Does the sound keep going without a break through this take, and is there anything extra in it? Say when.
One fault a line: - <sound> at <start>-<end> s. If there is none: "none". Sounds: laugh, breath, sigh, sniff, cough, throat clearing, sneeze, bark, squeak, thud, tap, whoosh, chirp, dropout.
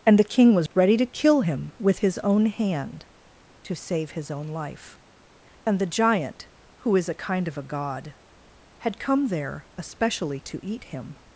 - dropout at 0.7-0.7 s